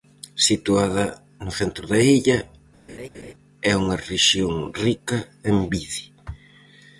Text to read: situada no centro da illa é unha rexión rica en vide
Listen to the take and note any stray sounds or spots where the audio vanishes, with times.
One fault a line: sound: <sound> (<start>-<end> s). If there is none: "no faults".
sound: laugh (2.9-3.3 s)